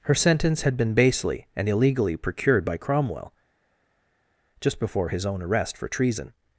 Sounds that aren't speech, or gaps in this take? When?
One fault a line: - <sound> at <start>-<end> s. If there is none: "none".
none